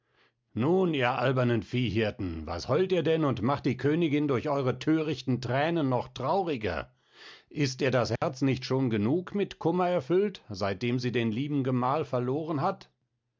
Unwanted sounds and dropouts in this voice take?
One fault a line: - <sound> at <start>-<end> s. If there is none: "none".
- dropout at 8.2-8.2 s